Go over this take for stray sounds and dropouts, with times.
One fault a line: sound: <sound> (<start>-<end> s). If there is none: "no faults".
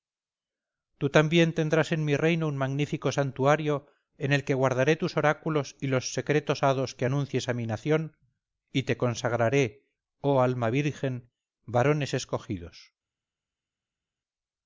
no faults